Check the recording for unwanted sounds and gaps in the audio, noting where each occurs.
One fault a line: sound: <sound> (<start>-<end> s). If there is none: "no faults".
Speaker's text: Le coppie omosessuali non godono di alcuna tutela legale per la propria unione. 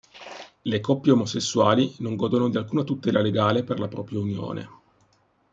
no faults